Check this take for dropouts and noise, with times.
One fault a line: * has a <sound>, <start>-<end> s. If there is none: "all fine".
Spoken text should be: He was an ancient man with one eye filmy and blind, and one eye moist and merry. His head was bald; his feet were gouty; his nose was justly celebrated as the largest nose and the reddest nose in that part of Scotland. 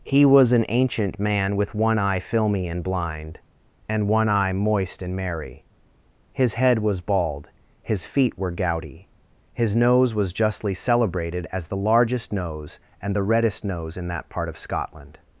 all fine